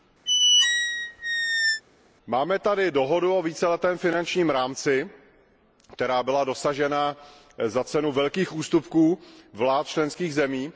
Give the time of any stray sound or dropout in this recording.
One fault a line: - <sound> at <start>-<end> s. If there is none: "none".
- squeak at 0.3-1.8 s